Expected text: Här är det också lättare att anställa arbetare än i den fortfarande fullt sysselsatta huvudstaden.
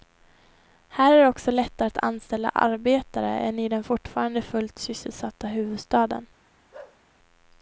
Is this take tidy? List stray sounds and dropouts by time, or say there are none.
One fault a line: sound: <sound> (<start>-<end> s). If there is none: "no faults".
sound: bark (6.7-7.0 s)